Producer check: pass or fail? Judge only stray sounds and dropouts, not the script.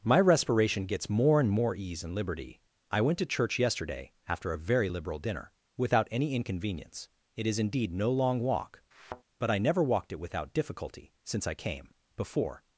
fail